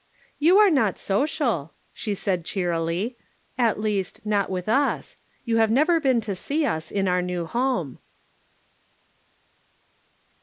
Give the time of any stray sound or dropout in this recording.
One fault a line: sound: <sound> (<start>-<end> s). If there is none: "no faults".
no faults